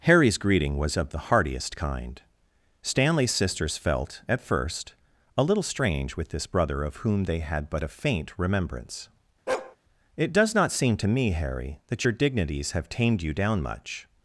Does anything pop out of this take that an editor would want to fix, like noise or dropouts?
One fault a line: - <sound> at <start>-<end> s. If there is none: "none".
- bark at 9.5-9.8 s